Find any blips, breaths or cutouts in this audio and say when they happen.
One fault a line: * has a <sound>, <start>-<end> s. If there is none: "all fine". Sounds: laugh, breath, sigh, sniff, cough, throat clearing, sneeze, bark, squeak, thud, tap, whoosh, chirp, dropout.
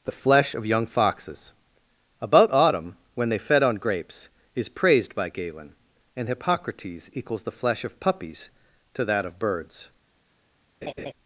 * has a laugh, 10.8-11.1 s